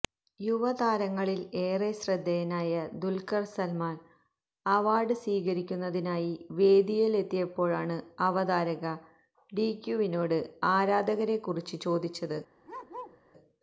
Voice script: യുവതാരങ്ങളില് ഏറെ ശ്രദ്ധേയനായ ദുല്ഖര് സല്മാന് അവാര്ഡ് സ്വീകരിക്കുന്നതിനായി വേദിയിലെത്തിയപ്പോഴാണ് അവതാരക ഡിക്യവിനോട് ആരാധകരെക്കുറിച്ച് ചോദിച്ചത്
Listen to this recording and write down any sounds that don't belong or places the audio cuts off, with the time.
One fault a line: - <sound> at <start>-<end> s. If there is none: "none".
- bark at 12.6-13.2 s